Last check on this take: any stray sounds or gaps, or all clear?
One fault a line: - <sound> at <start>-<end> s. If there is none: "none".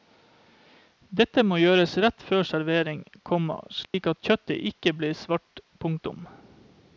- dropout at 3.8-3.9 s